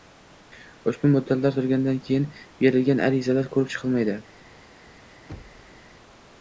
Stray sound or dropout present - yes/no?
yes